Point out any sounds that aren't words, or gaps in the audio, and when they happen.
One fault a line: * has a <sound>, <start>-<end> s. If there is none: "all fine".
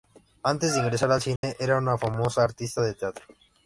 * has a dropout, 1.4-1.4 s